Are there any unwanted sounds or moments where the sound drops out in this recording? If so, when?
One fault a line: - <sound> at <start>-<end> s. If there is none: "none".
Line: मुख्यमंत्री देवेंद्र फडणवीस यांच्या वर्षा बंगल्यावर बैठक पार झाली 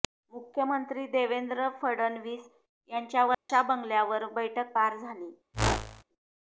- dropout at 3.3-3.5 s
- whoosh at 5.5-6.0 s